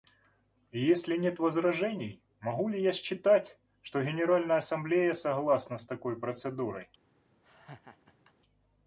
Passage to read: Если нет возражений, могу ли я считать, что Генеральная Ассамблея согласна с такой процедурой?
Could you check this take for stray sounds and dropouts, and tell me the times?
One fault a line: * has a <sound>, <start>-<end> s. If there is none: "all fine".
* has a laugh, 7.4-8.3 s